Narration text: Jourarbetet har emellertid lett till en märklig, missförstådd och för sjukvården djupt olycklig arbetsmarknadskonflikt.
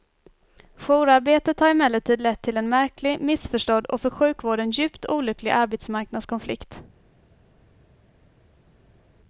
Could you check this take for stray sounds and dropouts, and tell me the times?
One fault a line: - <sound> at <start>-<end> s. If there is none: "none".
none